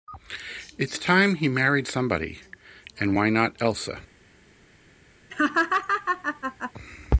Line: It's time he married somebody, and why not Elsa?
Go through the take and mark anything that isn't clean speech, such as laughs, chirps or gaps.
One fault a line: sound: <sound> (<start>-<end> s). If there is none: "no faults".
sound: laugh (5.3-6.7 s)